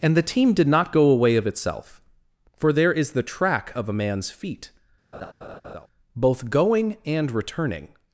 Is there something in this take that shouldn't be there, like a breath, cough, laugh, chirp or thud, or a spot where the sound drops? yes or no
yes